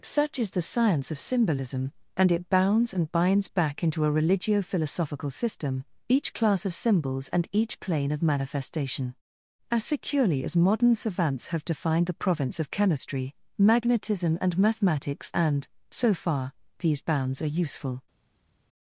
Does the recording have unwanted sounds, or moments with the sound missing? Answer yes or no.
no